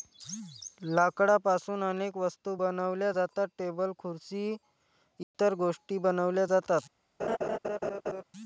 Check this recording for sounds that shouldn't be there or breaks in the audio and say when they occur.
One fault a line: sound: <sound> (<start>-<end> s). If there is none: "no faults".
sound: dropout (5.2-5.3 s)
sound: laugh (7.2-8.2 s)